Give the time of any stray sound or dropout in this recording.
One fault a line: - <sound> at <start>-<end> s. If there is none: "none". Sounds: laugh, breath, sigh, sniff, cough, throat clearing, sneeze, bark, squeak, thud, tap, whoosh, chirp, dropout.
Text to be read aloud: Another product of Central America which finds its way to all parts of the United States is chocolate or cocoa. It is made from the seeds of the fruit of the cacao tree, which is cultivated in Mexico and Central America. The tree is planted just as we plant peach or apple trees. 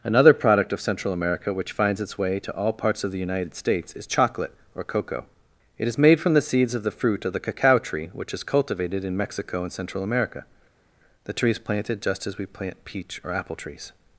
none